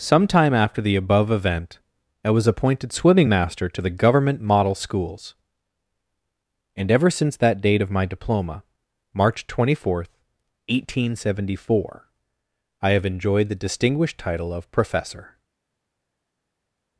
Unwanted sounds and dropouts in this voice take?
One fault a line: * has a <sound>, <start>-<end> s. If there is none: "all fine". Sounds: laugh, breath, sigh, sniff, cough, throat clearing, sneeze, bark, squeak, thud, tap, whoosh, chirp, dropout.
all fine